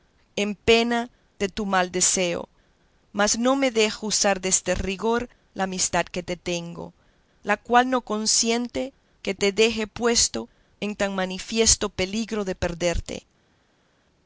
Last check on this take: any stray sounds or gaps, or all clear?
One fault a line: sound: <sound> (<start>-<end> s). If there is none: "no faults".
no faults